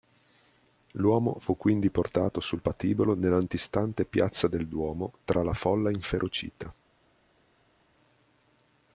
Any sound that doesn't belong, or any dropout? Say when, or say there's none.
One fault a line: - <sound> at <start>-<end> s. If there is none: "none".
none